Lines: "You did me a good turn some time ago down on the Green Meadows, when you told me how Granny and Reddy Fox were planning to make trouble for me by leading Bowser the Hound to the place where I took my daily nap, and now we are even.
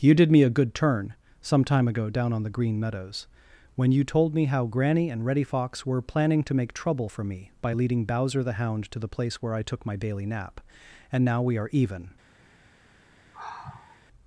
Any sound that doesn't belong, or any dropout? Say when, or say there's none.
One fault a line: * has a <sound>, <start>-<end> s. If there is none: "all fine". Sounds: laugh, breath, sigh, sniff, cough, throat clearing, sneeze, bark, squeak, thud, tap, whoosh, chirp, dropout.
* has a sigh, 13.3-14.1 s